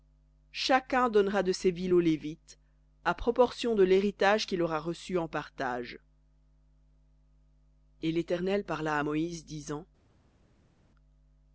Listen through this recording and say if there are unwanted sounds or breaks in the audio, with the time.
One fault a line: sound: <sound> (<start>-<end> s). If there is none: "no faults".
no faults